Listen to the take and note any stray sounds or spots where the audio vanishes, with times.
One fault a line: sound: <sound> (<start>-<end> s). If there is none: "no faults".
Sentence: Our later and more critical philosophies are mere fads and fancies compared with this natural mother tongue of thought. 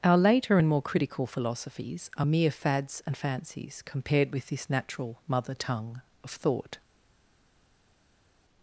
no faults